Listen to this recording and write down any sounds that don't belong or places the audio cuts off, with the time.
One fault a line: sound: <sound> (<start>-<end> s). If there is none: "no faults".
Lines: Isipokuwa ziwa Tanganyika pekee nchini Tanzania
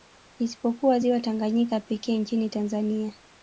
no faults